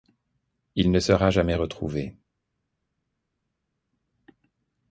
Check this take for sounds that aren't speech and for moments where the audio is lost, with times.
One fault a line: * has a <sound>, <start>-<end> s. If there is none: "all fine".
all fine